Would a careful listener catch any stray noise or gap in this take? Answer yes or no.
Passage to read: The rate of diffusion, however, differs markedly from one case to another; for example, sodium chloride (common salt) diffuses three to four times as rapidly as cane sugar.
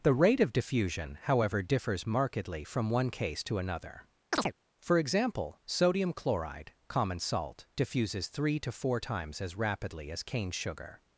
yes